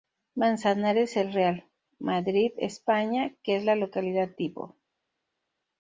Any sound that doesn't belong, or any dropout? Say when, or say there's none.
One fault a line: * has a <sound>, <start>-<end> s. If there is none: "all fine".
all fine